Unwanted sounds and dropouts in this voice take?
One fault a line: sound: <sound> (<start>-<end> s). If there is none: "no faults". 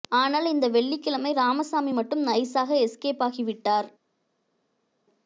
no faults